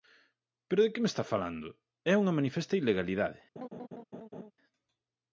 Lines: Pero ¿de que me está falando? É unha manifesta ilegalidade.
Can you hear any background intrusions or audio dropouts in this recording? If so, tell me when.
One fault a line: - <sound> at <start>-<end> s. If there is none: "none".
- laugh at 3.6-4.5 s